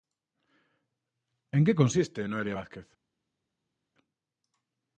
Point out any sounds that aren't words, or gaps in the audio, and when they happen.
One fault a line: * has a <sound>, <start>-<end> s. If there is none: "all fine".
all fine